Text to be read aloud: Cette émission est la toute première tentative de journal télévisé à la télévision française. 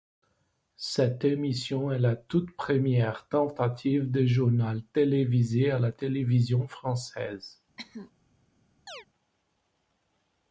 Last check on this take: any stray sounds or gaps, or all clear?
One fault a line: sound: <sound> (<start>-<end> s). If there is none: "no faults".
sound: cough (7.8-8.1 s)
sound: chirp (8.9-9.1 s)